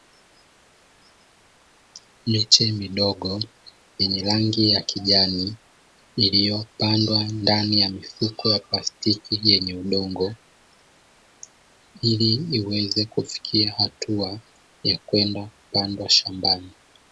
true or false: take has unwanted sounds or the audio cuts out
false